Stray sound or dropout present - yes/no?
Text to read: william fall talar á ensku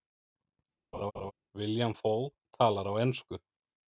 yes